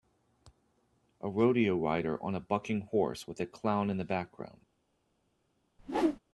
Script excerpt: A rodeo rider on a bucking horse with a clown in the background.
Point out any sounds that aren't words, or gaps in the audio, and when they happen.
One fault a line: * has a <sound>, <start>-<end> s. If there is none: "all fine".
* has a whoosh, 5.8-6.2 s